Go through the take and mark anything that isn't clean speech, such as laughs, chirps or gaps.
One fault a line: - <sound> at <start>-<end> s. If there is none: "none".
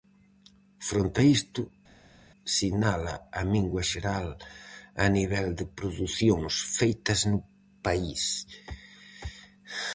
none